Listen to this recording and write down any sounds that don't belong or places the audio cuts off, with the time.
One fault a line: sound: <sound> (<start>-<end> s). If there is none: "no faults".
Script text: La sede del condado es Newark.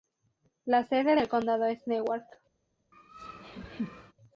sound: laugh (2.9-4.1 s)